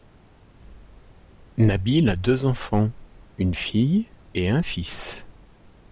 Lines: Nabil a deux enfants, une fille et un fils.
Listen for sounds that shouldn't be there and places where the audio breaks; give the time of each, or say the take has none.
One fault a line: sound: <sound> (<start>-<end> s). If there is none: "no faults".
no faults